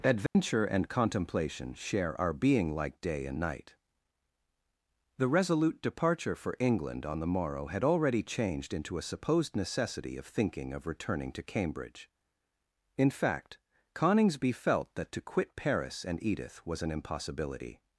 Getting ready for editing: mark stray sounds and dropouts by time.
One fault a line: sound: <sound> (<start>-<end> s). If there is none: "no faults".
sound: dropout (0.3-0.4 s)